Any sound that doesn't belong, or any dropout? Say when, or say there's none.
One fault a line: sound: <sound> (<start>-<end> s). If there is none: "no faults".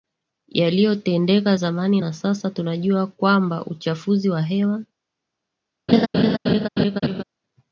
sound: laugh (5.9-7.2 s)